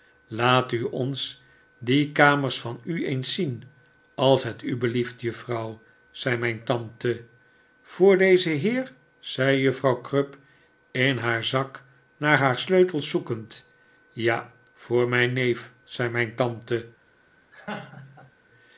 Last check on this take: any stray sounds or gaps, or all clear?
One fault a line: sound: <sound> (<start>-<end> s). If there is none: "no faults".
sound: laugh (17.5-18.3 s)